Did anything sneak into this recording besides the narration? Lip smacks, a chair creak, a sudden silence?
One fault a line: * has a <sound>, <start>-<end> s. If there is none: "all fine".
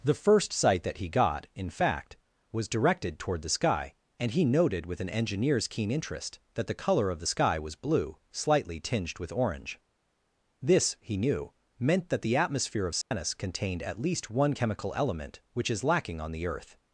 * has a dropout, 13.0-13.1 s